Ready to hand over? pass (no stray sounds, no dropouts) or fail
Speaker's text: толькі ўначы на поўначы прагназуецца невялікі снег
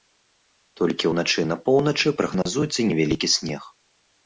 fail